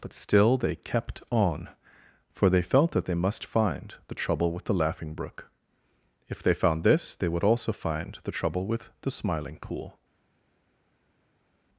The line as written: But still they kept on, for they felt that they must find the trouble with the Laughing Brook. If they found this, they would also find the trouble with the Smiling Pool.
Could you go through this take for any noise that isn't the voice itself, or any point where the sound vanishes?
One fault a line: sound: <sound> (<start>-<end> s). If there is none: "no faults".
no faults